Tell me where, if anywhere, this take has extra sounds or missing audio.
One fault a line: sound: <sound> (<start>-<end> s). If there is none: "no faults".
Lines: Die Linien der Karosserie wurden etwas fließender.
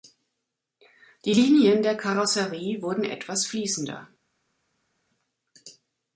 no faults